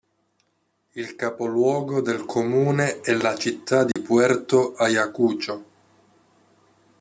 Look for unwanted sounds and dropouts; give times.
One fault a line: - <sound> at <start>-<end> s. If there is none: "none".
- dropout at 3.9-4.0 s